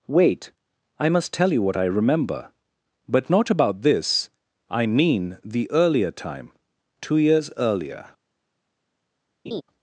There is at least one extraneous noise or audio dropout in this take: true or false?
true